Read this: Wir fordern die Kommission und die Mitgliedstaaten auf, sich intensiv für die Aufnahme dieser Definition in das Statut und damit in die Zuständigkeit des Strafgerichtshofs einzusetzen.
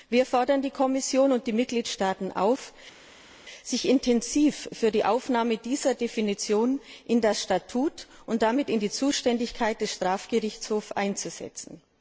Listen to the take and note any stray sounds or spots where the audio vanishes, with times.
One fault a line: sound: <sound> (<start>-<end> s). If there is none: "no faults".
no faults